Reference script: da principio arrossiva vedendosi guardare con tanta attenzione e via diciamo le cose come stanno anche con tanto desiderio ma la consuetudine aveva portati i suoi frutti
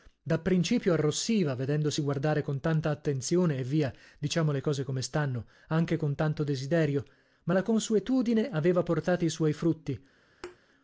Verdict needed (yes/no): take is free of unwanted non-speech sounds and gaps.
no